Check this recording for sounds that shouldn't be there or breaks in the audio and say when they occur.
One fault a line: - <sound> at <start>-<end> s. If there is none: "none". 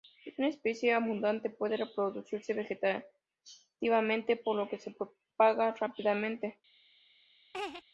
- laugh at 7.5-7.8 s